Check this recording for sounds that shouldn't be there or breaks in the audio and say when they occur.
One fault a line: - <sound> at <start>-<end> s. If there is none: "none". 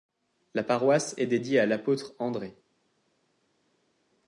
none